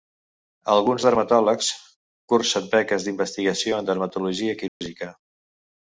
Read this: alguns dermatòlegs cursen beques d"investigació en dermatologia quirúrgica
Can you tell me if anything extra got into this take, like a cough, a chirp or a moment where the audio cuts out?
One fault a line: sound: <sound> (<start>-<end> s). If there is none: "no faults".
sound: dropout (4.7-4.8 s)